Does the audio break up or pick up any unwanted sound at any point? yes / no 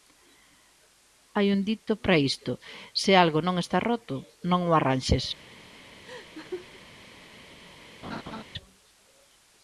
yes